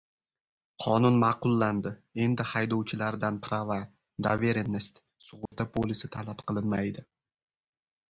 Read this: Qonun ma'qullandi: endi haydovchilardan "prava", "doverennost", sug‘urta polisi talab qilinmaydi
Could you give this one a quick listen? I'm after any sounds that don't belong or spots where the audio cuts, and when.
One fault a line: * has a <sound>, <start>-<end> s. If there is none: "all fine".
* has a dropout, 5.5-5.5 s